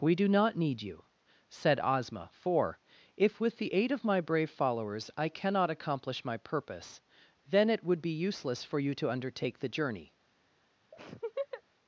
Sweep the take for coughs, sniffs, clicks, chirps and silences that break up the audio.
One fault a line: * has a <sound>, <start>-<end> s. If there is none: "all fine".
* has a laugh, 10.9-11.6 s